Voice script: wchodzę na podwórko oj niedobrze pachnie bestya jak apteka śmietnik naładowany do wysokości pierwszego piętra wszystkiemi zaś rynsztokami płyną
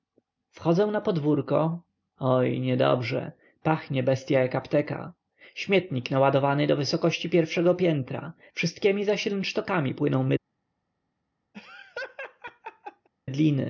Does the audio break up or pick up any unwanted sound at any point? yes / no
yes